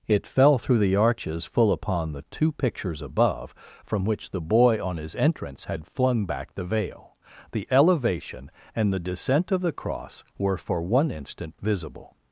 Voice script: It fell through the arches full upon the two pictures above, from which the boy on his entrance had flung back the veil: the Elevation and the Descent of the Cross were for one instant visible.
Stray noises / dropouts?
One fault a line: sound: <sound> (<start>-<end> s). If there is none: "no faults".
no faults